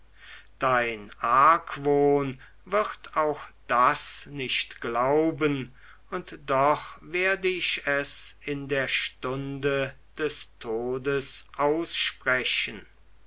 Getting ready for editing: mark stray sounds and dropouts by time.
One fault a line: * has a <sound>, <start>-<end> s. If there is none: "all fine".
all fine